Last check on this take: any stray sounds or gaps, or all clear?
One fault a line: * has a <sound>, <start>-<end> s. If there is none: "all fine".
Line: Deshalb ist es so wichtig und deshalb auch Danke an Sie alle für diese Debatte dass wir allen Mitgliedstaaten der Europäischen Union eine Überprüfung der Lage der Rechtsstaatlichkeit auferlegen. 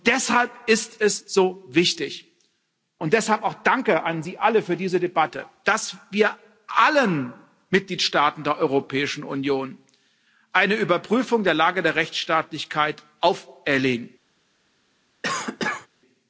* has a cough, 15.2-15.9 s